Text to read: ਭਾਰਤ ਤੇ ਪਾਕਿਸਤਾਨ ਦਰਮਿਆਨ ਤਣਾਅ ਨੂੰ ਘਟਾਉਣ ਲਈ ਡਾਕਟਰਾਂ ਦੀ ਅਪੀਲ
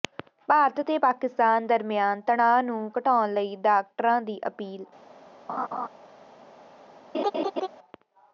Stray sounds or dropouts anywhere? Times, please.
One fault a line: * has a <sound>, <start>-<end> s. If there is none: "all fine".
* has a laugh, 5.5-5.9 s
* has a laugh, 7.1-7.7 s